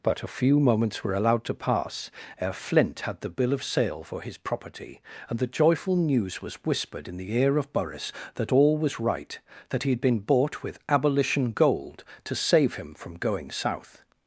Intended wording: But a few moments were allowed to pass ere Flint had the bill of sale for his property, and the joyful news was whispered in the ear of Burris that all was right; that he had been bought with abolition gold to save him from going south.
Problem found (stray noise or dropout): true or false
false